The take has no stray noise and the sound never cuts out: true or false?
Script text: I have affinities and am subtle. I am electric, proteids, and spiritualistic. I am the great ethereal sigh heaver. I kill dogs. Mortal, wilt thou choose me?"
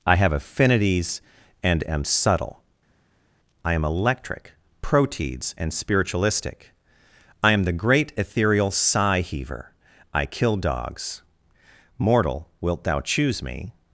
true